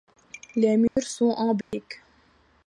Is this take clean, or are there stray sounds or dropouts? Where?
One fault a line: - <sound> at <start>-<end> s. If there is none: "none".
- dropout at 0.9-1.0 s
- dropout at 1.6-1.7 s